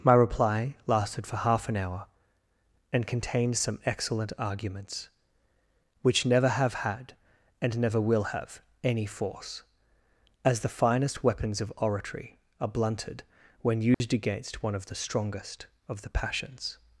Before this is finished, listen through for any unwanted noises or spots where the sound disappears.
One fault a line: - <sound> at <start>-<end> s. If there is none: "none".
- dropout at 13.9-14.0 s